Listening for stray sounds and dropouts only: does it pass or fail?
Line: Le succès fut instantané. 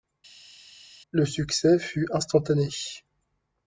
pass